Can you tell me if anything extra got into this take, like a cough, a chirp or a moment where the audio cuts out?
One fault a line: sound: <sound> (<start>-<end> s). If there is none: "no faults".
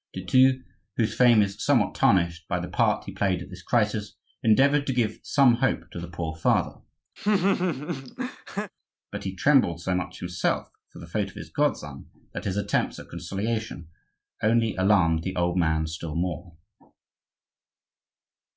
sound: laugh (7.2-8.7 s)